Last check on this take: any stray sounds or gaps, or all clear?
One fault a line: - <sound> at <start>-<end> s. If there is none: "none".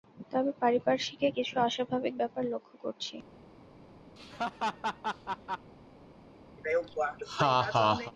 - laugh at 4.2-5.7 s
- laugh at 6.6-8.1 s